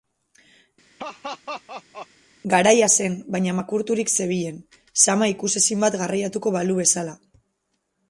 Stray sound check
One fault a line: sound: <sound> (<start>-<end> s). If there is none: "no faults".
sound: laugh (1.0-2.1 s)